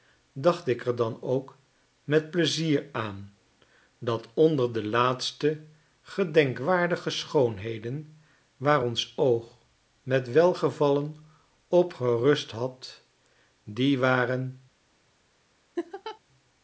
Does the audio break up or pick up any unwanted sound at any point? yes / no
yes